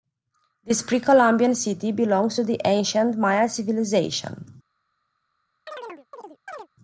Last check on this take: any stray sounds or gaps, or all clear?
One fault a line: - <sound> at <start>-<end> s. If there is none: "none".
- chirp at 5.7-6.7 s